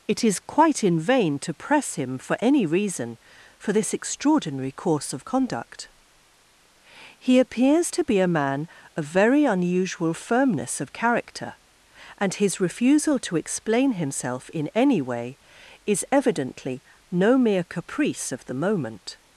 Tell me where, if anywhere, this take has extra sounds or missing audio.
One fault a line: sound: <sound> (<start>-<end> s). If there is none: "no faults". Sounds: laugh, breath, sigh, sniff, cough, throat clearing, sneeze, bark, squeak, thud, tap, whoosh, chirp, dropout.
no faults